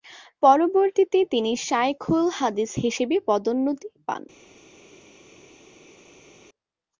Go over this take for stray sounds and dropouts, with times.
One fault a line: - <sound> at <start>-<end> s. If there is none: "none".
none